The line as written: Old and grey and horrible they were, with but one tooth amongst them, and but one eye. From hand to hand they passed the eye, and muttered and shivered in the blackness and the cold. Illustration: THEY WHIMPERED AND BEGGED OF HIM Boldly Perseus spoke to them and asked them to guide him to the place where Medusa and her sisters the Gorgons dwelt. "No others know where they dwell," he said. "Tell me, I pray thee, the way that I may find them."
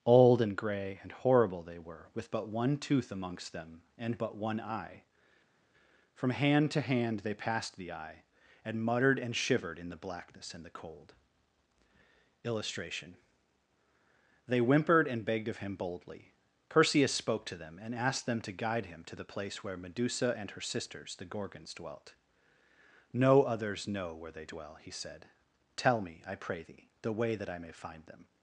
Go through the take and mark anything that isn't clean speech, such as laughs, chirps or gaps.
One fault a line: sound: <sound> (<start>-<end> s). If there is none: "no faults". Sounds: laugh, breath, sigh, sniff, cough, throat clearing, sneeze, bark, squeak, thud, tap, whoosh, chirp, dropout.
no faults